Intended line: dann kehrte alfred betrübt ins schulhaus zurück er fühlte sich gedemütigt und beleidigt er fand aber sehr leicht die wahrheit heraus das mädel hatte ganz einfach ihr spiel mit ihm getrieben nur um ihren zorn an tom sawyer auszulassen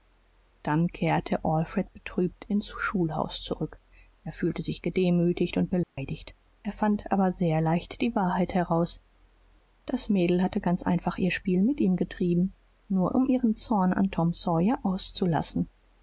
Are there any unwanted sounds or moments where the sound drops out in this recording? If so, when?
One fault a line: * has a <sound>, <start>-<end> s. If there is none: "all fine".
* has a dropout, 5.8-6.0 s